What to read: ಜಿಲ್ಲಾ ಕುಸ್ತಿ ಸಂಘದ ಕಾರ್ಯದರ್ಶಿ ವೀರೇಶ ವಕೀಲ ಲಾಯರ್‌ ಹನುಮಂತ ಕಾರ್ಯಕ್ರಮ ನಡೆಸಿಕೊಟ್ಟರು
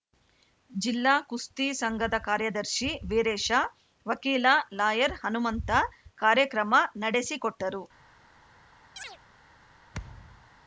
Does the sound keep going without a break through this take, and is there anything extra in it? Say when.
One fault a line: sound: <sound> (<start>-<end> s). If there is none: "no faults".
sound: chirp (9.0-9.2 s)
sound: thud (9.9-10.5 s)